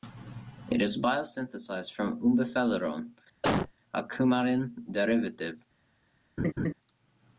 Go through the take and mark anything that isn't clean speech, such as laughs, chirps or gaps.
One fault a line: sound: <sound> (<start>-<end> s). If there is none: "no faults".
sound: cough (3.4-3.7 s)
sound: laugh (6.4-6.7 s)